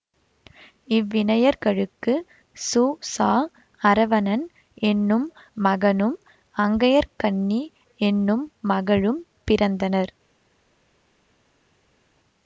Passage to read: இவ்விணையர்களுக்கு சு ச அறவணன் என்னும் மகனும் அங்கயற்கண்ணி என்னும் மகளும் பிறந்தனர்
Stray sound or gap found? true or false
false